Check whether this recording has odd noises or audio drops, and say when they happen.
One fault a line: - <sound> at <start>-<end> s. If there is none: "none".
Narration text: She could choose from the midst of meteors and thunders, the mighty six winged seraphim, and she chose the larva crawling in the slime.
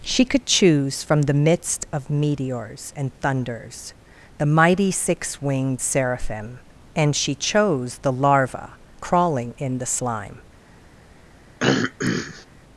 - throat clearing at 11.6-12.5 s